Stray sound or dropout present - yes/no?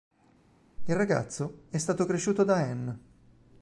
no